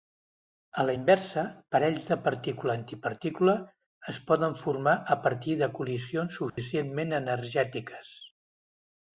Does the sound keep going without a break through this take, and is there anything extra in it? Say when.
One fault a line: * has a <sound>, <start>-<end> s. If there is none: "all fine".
* has a dropout, 6.5-6.6 s